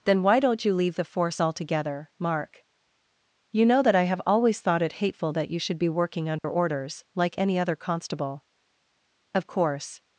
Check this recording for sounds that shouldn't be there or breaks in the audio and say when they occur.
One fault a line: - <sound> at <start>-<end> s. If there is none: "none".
- dropout at 6.4-6.4 s